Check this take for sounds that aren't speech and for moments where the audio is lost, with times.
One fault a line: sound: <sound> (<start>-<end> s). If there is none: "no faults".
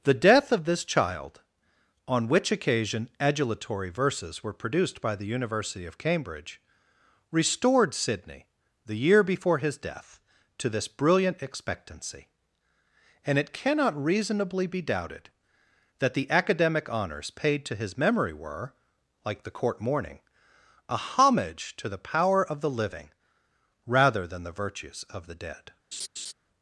sound: laugh (25.9-26.3 s)